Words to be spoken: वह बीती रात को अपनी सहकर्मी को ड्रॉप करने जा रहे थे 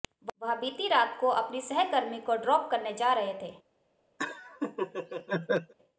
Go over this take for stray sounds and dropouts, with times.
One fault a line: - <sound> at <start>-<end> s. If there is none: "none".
- laugh at 4.2-5.7 s